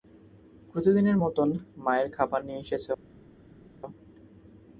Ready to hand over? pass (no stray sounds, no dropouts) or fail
pass